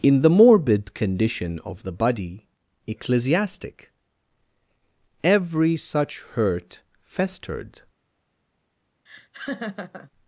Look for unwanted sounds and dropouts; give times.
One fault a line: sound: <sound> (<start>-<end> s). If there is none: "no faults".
sound: laugh (9.1-10.1 s)